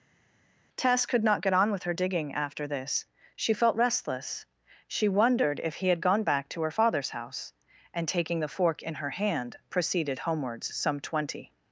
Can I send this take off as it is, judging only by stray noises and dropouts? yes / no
yes